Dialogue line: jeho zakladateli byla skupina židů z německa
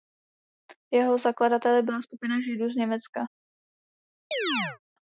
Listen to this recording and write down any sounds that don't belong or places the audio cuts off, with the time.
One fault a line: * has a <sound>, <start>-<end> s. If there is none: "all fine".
* has a chirp, 4.3-4.8 s